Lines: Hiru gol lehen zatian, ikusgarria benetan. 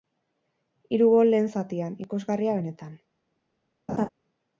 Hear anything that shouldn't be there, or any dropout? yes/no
yes